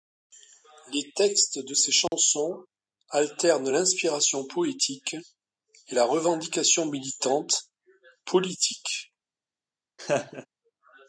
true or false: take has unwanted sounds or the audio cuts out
true